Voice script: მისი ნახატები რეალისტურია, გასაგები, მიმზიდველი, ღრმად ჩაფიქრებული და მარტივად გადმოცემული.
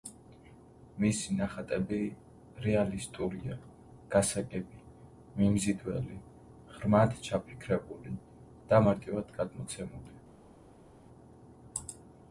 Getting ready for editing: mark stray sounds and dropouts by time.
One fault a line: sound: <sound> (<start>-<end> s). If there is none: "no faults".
no faults